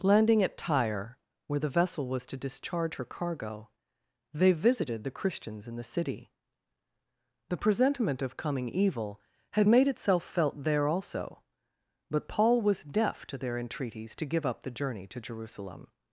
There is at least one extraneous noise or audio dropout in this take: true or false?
false